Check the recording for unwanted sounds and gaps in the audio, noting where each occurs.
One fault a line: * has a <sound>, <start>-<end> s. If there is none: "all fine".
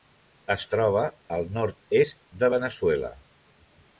all fine